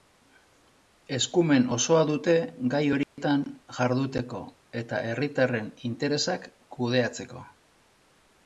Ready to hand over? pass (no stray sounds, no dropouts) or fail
fail